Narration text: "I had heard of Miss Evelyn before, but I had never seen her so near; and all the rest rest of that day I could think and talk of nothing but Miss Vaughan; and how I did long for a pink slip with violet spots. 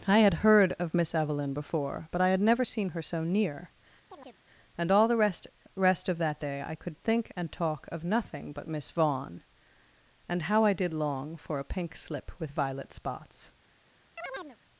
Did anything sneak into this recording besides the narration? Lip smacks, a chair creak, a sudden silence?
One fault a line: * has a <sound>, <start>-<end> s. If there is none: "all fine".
* has a chirp, 4.1-4.4 s
* has a chirp, 14.2-14.6 s